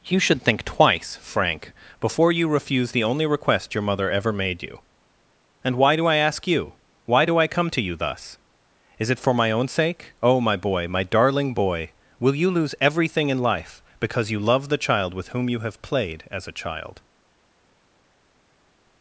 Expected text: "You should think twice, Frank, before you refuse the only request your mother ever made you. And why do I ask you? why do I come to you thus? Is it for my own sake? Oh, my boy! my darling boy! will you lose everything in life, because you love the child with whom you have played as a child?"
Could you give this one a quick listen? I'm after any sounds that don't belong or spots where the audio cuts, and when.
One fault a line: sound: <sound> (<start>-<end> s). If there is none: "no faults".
no faults